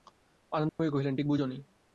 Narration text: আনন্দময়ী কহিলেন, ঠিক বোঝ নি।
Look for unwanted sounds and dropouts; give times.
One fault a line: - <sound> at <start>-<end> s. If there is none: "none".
- dropout at 0.7-0.8 s